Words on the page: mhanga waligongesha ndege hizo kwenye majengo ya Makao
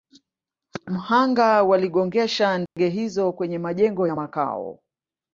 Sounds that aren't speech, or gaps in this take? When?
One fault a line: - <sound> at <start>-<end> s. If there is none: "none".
- dropout at 2.7-2.8 s